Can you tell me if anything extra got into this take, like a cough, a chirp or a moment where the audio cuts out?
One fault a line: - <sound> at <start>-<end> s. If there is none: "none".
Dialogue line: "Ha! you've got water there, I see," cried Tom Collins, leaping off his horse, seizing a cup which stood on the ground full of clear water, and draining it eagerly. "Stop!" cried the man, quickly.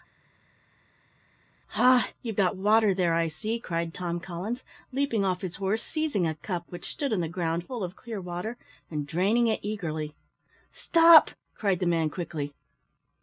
none